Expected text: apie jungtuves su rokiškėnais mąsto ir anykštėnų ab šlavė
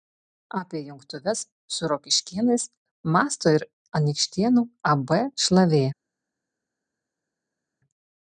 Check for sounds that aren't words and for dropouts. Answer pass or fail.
pass